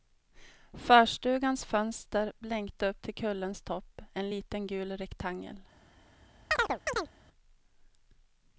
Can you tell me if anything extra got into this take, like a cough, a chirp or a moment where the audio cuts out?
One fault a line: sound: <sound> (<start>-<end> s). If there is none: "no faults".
sound: chirp (6.5-7.1 s)